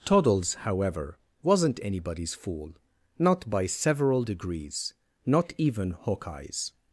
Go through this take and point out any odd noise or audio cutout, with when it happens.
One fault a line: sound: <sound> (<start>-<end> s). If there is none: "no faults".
no faults